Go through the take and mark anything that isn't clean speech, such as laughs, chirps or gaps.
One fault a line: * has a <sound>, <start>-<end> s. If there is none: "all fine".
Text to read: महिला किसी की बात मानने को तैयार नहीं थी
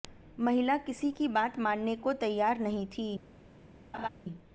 * has a laugh, 3.9-4.1 s